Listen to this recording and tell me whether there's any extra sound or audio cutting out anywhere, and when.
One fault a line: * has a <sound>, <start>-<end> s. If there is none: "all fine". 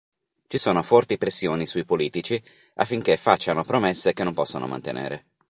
all fine